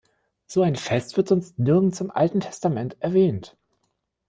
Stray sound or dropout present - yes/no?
no